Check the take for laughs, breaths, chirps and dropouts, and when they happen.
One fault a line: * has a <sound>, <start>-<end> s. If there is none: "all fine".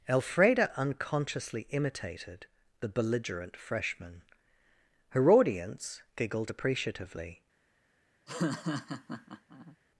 * has a laugh, 8.3-9.8 s